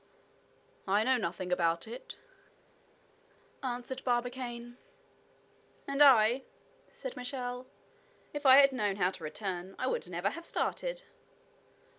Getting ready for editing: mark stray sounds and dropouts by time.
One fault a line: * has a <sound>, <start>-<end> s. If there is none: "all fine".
all fine